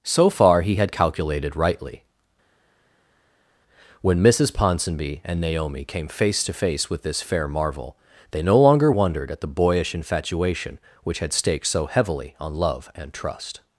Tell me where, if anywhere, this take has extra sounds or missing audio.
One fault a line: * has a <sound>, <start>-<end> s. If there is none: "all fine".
all fine